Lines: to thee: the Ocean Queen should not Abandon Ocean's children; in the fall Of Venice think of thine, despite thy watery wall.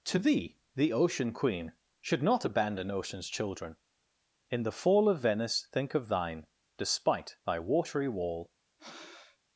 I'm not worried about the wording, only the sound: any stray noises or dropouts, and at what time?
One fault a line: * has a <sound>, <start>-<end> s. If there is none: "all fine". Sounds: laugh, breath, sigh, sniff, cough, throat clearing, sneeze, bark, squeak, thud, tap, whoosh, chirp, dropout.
* has a breath, 8.8-9.4 s